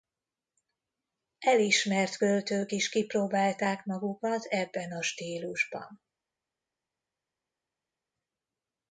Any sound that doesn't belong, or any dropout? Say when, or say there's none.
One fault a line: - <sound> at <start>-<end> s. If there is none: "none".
none